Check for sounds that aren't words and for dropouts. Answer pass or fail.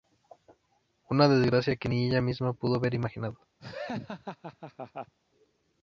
fail